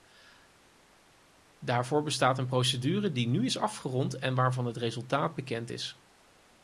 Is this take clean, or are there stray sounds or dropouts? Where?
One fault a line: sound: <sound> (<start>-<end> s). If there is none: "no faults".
no faults